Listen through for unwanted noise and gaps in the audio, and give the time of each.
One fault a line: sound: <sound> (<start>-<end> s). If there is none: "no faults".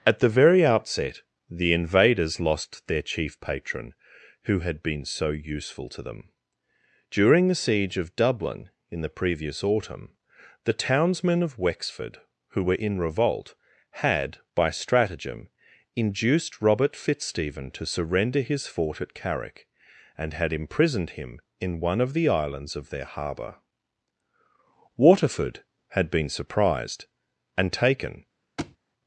sound: thud (28.6-28.8 s)